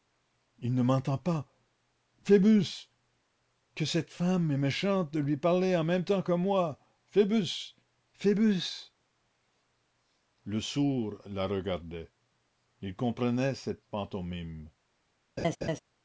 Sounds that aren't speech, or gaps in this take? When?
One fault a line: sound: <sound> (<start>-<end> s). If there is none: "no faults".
sound: laugh (15.4-15.8 s)